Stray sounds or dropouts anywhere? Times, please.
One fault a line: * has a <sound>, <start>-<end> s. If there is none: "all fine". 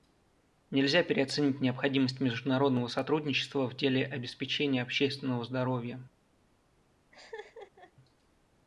* has a laugh, 7.1-7.9 s